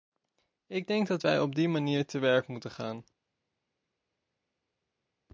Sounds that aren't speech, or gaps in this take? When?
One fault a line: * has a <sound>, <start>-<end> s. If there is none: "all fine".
all fine